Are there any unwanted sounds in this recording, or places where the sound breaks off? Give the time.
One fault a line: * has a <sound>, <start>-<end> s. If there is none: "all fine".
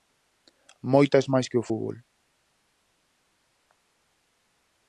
all fine